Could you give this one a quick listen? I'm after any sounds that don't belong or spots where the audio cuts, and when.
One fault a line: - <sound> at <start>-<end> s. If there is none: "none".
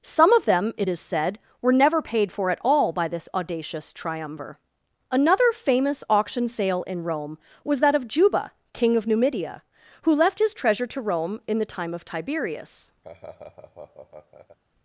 - laugh at 13.0-14.6 s